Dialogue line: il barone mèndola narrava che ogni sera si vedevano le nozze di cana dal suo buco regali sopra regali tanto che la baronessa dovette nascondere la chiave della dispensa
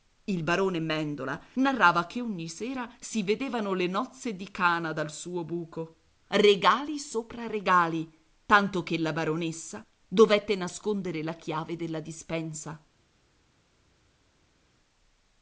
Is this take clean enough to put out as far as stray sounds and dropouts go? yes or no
yes